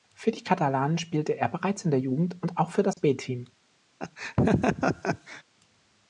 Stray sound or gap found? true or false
true